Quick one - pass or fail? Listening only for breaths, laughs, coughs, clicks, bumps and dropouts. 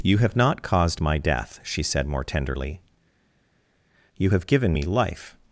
pass